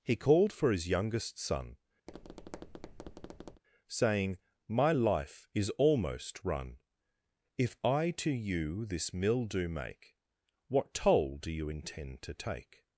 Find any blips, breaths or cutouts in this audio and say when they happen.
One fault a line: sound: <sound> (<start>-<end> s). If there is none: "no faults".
sound: tap (2.1-3.6 s)